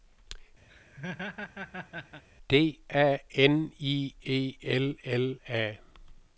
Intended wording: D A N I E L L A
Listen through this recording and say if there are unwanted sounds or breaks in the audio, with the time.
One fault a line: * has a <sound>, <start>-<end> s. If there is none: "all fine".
* has a laugh, 0.7-2.2 s